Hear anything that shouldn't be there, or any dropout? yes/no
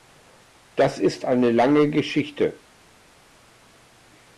no